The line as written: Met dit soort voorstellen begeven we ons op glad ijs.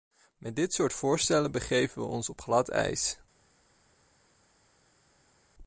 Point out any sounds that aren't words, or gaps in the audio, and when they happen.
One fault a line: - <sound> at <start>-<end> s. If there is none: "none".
none